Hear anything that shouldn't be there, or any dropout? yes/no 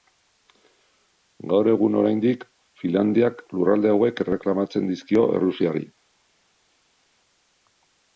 no